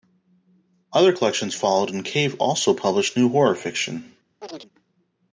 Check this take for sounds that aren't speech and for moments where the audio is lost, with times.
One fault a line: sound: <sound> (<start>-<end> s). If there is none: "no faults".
sound: chirp (4.4-4.7 s)